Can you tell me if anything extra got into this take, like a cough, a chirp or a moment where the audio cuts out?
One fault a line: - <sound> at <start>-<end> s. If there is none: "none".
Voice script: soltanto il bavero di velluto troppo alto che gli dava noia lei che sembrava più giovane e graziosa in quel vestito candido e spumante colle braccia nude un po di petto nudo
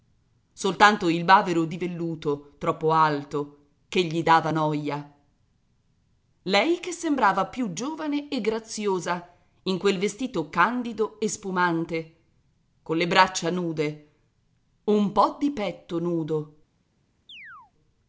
- chirp at 17.3-17.7 s